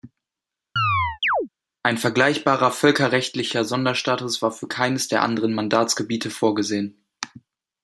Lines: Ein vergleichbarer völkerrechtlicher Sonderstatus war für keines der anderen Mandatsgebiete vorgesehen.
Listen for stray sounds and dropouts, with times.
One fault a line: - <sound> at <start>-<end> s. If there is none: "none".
- chirp at 0.8-1.5 s